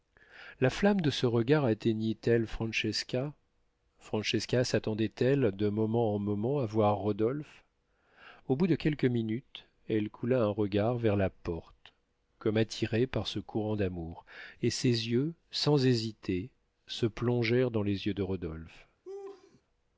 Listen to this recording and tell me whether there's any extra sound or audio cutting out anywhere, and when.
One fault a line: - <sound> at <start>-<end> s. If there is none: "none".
- laugh at 19.0-19.6 s